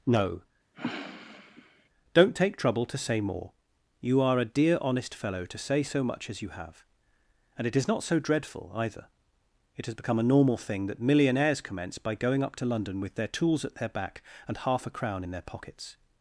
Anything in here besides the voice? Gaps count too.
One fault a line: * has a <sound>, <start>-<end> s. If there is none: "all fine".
* has a sniff, 0.7-1.9 s